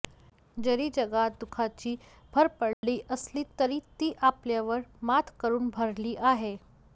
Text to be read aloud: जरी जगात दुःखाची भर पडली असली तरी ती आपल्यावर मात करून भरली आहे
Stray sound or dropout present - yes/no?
yes